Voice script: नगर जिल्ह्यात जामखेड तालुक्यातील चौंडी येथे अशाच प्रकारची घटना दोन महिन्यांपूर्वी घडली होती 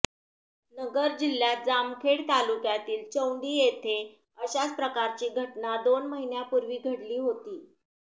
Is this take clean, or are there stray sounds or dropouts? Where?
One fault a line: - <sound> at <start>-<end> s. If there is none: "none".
none